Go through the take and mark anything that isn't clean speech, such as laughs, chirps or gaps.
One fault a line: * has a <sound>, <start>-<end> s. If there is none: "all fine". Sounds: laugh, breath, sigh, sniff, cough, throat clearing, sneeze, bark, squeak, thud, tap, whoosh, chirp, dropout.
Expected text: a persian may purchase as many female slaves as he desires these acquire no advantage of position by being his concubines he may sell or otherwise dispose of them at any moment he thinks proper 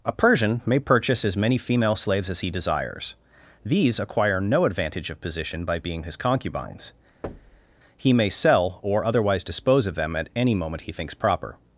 * has a thud, 7.2-7.7 s